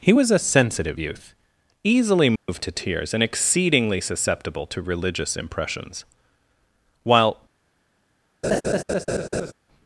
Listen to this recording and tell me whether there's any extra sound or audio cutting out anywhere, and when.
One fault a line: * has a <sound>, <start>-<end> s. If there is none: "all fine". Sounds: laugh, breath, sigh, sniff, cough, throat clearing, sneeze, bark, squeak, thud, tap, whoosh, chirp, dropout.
* has a dropout, 2.4-2.5 s
* has a laugh, 8.4-9.5 s